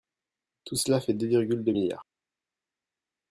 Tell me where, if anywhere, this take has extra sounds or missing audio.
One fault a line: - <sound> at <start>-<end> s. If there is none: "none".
none